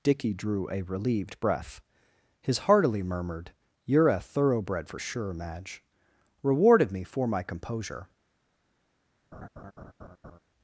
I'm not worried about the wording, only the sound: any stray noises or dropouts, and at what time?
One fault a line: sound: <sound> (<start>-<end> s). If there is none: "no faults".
sound: laugh (9.3-10.4 s)